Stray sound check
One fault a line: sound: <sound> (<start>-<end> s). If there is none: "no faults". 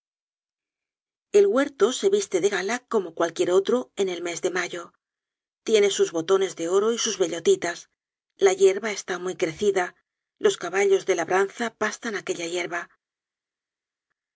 no faults